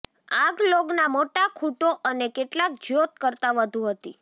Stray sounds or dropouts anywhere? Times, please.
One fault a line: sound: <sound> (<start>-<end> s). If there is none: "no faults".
no faults